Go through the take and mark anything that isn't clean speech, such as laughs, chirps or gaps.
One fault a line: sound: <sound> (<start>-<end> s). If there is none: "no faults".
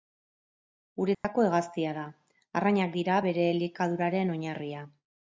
sound: dropout (1.1-1.2 s)